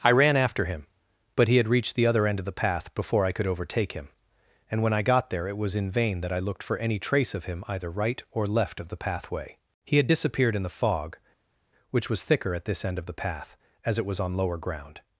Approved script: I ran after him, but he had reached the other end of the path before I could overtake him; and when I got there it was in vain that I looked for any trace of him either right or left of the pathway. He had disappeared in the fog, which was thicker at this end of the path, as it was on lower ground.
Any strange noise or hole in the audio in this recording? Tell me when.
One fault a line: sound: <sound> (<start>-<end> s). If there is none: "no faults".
no faults